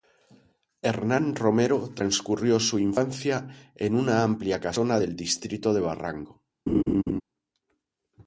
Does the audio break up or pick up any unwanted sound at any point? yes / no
yes